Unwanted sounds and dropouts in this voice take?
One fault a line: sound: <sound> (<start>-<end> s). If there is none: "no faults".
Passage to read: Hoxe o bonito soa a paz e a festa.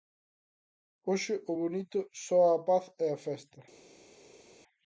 no faults